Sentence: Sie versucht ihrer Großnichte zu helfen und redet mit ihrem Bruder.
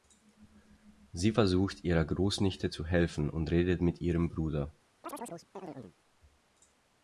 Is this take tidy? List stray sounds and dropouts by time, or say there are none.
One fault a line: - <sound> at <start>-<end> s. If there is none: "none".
- chirp at 5.0-6.0 s